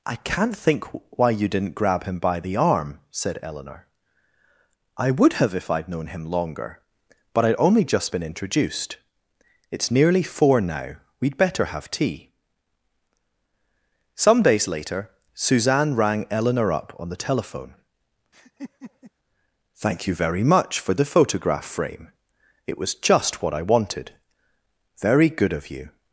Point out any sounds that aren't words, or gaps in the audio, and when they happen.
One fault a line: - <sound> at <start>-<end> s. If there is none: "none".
- laugh at 18.3-19.1 s